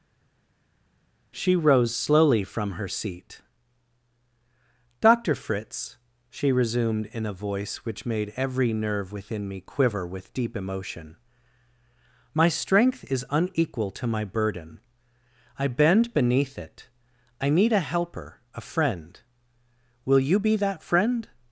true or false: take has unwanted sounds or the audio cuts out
false